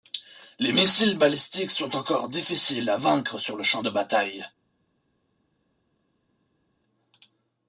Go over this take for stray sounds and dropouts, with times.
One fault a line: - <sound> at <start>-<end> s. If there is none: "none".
none